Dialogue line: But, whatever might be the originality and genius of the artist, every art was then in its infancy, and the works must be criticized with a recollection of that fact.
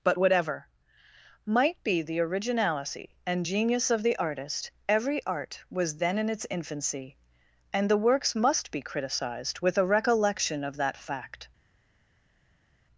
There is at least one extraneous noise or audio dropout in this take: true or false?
false